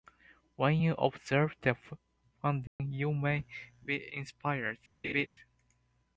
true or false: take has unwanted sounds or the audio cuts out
true